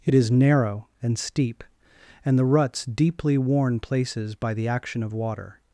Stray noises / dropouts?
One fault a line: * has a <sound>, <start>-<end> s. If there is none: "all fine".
all fine